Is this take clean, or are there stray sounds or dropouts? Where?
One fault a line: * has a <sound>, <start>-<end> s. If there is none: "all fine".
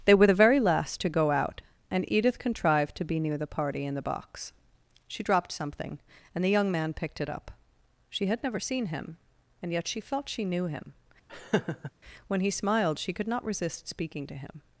* has a laugh, 11.3-11.9 s